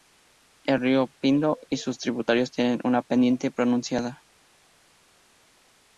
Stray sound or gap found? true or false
false